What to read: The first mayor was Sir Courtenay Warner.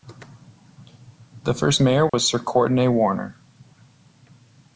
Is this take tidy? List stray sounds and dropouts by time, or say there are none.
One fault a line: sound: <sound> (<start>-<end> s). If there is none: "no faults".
sound: dropout (2.1-2.1 s)